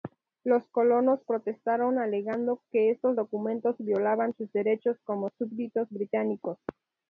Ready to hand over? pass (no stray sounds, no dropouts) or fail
pass